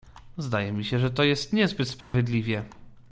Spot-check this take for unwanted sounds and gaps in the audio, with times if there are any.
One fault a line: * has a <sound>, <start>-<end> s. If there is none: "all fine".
* has a dropout, 2.0-2.1 s